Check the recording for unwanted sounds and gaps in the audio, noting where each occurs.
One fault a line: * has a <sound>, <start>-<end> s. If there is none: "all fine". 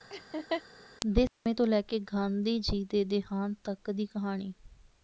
* has a laugh, 0.1-0.6 s